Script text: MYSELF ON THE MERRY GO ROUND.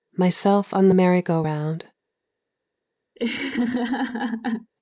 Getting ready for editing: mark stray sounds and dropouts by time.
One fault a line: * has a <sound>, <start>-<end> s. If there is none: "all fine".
* has a laugh, 3.2-4.7 s